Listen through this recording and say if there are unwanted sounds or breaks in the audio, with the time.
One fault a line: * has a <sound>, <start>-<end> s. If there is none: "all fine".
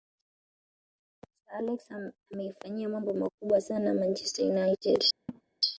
* has a laugh, 5.3-5.4 s